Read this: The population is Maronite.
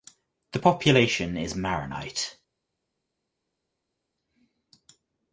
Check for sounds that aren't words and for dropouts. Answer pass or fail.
pass